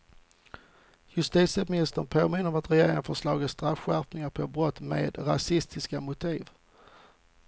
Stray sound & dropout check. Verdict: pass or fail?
pass